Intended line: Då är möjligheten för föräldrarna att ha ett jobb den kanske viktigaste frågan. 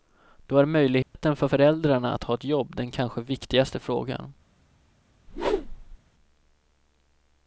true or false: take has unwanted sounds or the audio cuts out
true